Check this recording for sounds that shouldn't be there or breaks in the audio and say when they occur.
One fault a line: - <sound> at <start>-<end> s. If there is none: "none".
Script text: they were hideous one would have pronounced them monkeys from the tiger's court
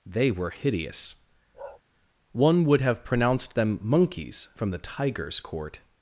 - bark at 1.5-1.8 s